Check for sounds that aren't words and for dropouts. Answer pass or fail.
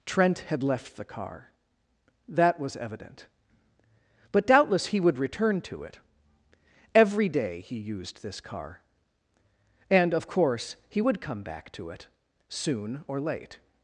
pass